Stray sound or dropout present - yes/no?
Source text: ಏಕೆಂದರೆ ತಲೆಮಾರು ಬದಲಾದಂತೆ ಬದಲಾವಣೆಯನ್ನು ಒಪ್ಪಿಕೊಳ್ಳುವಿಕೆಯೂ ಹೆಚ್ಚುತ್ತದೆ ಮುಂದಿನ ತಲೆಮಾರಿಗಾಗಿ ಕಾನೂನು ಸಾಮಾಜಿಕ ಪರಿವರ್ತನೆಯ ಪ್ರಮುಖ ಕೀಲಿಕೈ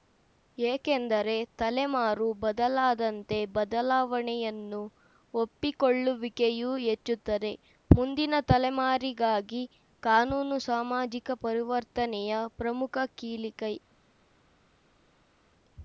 no